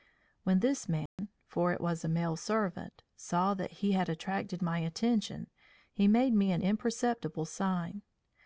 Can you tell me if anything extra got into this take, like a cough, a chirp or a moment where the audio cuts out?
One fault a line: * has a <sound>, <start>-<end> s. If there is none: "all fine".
* has a dropout, 1.1-1.2 s